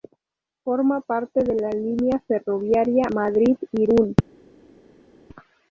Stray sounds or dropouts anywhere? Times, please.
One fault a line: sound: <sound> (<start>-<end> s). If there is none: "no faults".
no faults